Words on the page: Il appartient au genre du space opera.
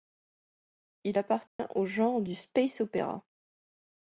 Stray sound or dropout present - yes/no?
yes